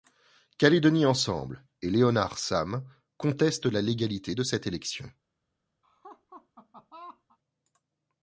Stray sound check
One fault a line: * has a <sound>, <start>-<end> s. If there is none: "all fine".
* has a laugh, 5.8-7.4 s